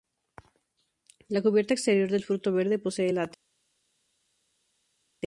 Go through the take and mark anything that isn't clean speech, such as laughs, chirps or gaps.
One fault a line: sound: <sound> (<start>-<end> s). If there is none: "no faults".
no faults